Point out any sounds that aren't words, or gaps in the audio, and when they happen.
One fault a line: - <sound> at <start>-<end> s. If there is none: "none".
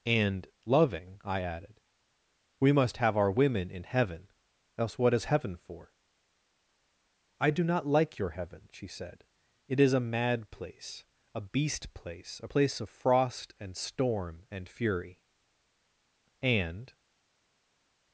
none